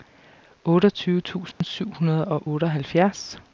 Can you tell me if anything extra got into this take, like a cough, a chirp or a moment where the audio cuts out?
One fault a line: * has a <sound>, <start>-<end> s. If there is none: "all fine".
* has a dropout, 1.5-1.6 s